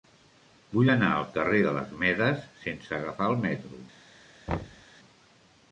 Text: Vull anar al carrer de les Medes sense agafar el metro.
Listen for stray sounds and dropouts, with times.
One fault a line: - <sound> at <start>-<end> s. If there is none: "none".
- thud at 4.5-4.9 s